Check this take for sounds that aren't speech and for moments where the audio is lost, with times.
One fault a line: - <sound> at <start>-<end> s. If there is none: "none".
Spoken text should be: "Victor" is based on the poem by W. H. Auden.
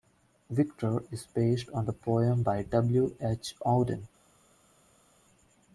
none